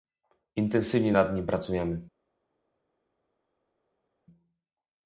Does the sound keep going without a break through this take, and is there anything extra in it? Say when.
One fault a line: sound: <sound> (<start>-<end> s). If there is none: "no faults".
no faults